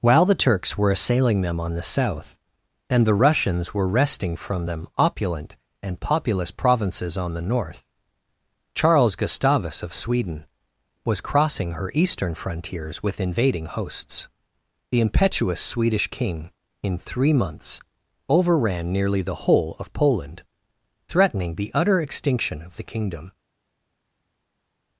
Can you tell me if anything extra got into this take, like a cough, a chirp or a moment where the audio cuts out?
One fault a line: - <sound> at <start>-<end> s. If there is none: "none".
none